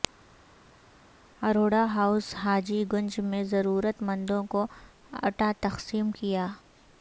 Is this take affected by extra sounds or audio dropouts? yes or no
no